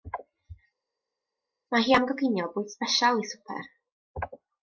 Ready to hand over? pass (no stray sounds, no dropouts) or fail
pass